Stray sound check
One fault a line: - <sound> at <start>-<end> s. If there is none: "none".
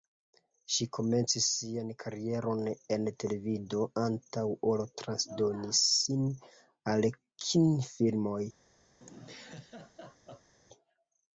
- laugh at 9.0-10.5 s